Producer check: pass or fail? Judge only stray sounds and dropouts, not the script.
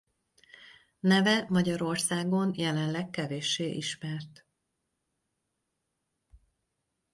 pass